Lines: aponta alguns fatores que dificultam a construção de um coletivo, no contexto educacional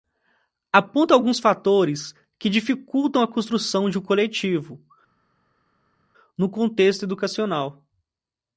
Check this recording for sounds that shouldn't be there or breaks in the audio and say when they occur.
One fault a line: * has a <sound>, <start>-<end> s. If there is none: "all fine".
all fine